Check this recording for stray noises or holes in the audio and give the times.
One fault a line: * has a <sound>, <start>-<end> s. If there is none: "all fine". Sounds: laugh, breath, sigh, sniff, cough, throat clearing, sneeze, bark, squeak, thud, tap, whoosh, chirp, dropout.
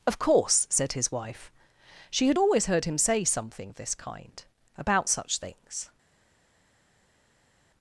all fine